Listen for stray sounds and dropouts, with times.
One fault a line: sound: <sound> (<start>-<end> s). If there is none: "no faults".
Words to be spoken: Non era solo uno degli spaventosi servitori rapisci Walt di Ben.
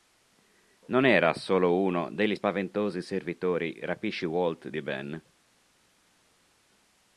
no faults